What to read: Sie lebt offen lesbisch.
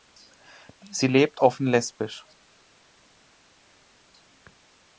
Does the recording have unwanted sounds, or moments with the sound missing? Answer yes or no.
no